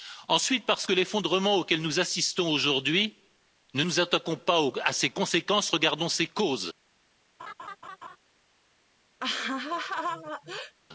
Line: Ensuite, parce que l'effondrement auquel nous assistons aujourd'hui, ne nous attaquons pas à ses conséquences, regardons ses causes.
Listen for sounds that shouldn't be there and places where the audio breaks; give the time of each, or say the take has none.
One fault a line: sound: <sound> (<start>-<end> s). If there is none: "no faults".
sound: laugh (7.4-8.2 s)
sound: laugh (9.2-10.7 s)